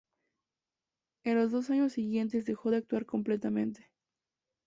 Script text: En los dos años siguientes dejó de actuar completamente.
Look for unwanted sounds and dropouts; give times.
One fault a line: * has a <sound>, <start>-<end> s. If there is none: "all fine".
all fine